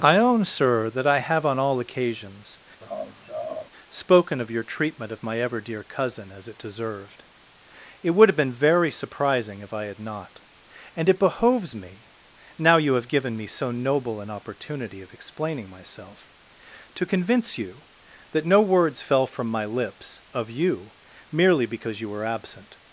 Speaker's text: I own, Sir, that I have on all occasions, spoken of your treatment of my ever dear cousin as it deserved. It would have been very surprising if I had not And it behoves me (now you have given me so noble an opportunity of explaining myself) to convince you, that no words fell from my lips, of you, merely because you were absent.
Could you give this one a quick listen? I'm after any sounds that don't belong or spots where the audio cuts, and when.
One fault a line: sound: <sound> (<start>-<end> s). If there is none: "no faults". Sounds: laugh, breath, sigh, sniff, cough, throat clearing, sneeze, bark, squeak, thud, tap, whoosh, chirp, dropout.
sound: laugh (2.8-3.7 s)